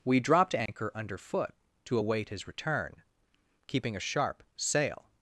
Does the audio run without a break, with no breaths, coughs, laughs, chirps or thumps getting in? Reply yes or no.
no